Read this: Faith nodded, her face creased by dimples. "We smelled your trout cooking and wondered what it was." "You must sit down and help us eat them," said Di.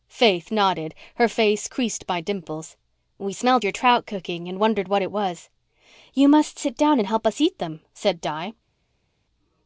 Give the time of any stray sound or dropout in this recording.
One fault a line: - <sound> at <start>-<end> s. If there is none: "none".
none